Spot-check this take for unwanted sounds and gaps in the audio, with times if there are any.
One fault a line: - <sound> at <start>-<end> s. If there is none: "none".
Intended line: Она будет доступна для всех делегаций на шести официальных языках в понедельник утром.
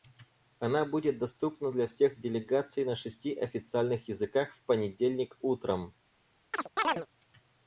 - chirp at 6.5-7.1 s